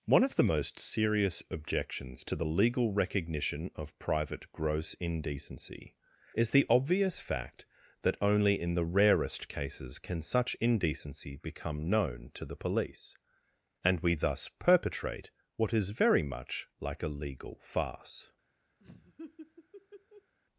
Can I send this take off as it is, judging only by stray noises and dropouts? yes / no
no